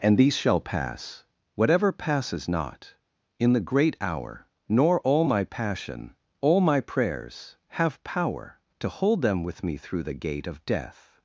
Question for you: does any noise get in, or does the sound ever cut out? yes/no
no